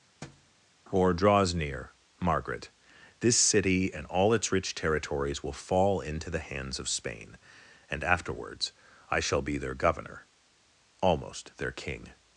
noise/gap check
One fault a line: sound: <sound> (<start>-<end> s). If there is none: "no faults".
sound: thud (0.2-0.5 s)